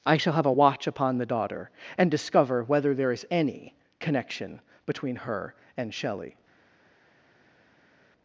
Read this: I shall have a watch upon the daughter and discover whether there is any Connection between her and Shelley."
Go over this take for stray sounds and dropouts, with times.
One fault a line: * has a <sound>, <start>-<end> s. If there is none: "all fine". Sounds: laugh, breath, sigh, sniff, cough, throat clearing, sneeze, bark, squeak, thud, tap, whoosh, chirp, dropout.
all fine